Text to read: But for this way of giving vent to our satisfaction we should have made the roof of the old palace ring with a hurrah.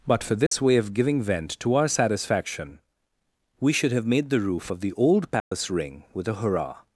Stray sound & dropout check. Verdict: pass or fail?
fail